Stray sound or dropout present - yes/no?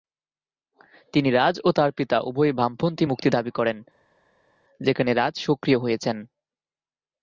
no